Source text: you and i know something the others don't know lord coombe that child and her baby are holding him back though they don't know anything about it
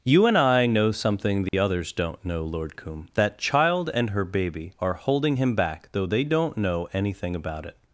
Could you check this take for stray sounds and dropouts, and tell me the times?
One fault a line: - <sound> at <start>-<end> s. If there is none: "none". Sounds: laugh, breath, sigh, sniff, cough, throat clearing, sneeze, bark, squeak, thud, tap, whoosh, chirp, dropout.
- dropout at 1.5-1.5 s